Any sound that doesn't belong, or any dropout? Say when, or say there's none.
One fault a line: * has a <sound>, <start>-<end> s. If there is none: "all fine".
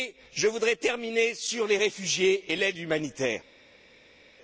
all fine